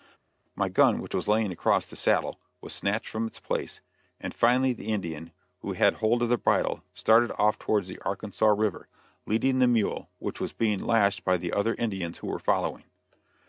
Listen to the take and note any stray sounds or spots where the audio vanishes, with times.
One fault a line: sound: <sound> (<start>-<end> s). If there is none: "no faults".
no faults